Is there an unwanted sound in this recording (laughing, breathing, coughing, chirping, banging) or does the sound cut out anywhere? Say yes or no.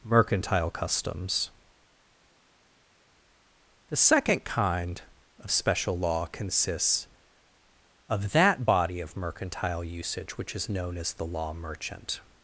no